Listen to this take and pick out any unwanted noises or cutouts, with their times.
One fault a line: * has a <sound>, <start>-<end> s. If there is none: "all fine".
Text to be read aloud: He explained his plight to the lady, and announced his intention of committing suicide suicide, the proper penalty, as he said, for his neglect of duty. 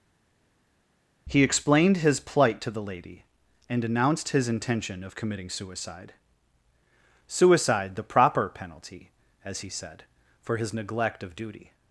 all fine